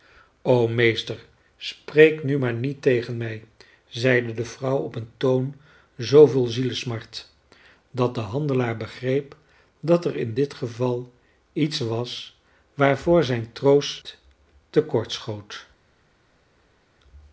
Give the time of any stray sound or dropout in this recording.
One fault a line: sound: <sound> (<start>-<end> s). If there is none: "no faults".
no faults